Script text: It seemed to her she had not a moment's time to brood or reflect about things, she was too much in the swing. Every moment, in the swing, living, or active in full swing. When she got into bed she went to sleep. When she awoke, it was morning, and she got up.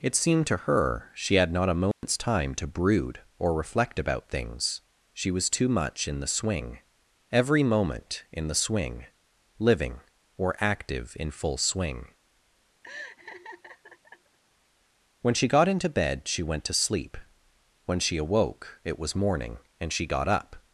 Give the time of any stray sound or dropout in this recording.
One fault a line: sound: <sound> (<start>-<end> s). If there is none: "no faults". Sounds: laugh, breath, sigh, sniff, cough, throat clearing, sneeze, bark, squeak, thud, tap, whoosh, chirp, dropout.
sound: dropout (1.9-2.0 s)
sound: laugh (12.8-14.4 s)